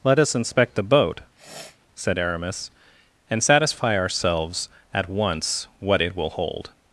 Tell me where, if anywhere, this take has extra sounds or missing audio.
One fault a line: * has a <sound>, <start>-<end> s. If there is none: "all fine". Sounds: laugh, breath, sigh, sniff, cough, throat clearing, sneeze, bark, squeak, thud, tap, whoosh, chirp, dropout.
* has a sniff, 1.4-1.8 s